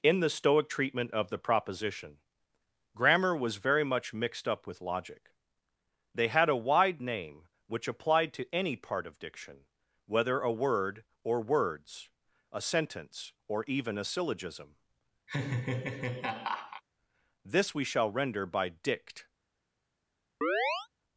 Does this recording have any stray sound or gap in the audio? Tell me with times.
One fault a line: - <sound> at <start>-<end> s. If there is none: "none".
- laugh at 15.3-16.8 s
- chirp at 20.4-20.9 s